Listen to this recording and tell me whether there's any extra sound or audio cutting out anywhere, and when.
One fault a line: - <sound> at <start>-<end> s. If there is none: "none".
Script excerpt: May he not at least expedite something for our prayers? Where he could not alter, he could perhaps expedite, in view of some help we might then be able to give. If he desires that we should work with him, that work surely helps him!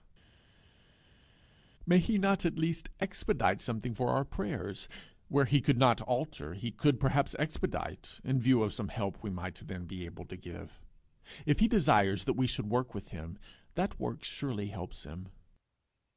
none